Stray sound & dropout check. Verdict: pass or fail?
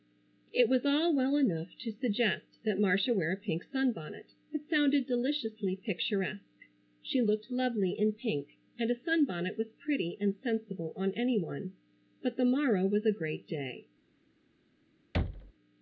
fail